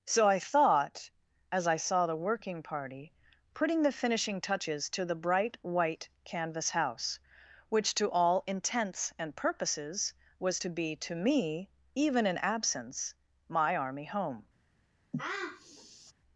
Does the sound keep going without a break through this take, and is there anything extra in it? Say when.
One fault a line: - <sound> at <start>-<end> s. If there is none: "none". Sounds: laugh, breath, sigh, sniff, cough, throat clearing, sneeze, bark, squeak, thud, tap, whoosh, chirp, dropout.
- sniff at 15.1-16.1 s